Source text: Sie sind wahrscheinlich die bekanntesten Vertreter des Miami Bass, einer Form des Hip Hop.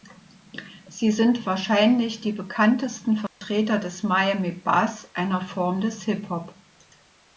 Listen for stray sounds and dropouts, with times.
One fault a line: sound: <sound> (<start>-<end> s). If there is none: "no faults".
sound: dropout (3.3-3.4 s)